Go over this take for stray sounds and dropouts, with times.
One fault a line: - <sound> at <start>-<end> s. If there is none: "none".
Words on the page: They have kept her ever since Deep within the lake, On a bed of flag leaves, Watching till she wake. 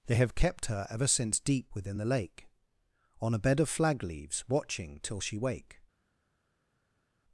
none